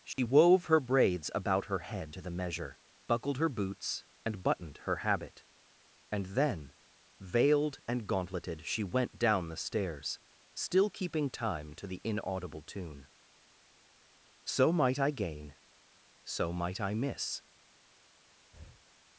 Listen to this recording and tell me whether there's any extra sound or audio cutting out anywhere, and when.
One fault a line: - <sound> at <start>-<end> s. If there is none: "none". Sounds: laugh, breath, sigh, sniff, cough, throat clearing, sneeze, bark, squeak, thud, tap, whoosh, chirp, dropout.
- dropout at 0.1-0.2 s
- breath at 18.5-18.9 s